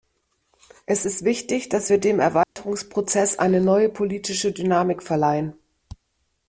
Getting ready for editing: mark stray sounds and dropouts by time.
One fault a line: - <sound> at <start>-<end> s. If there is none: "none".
- dropout at 2.4-2.6 s